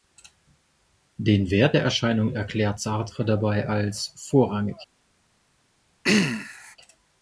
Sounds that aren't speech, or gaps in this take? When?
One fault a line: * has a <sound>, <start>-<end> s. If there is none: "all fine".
* has a throat clearing, 6.0-6.8 s